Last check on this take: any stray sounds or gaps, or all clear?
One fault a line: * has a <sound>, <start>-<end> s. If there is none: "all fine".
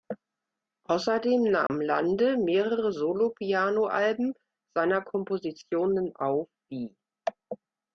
* has a dropout, 1.7-1.7 s